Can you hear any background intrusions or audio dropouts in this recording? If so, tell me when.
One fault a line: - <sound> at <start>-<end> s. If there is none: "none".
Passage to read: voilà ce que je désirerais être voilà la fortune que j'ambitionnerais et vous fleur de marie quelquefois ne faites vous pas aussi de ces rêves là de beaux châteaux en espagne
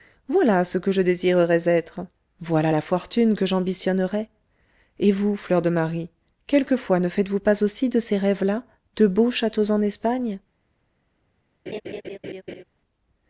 - laugh at 11.7-12.6 s